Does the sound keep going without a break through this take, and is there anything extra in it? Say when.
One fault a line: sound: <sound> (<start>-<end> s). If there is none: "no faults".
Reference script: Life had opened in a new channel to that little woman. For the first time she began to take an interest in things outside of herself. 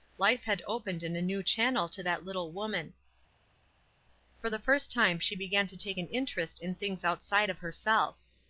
no faults